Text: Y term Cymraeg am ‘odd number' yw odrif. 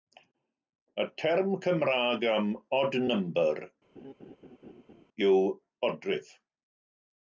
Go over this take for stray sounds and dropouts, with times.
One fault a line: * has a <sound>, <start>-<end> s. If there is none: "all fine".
* has a laugh, 3.9-5.0 s